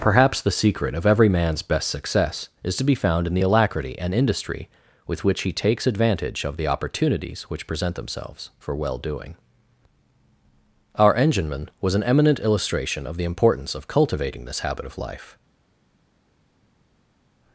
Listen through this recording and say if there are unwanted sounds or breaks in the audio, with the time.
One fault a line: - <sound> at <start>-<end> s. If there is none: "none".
none